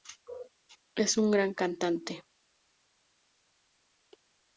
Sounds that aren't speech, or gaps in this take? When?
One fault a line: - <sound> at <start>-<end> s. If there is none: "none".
none